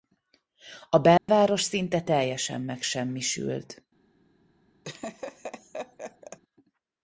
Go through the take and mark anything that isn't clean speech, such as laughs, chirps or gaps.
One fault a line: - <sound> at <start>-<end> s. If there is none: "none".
- dropout at 1.2-1.3 s
- laugh at 4.8-6.4 s